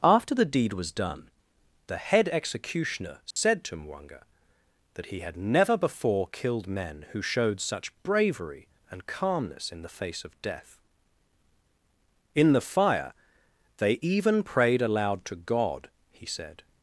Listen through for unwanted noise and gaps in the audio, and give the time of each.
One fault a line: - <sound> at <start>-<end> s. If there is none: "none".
- dropout at 3.3-3.4 s